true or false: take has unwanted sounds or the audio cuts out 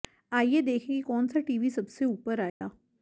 true